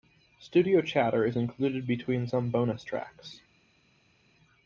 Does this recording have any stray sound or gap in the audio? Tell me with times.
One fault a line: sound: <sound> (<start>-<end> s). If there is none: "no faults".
no faults